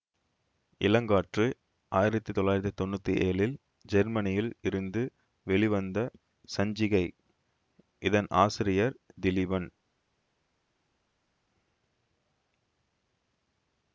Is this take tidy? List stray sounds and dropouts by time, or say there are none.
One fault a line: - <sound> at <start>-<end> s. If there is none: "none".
none